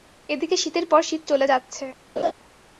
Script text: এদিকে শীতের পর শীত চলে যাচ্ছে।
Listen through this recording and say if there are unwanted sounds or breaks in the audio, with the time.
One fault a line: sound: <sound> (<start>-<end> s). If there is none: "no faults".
sound: laugh (2.2-2.3 s)